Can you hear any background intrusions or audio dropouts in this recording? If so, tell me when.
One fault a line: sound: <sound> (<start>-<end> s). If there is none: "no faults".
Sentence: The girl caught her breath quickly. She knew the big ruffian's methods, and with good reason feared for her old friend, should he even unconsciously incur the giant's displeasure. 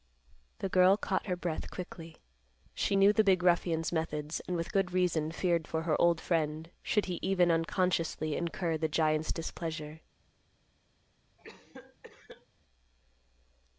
sound: cough (11.4-12.5 s)